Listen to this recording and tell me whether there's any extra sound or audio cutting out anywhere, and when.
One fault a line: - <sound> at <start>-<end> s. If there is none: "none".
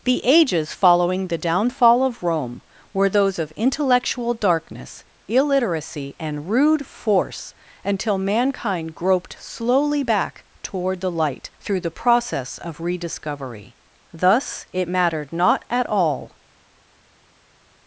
none